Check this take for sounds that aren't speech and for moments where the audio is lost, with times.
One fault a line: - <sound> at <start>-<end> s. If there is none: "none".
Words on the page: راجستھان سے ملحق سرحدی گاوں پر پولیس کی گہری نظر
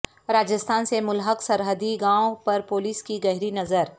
none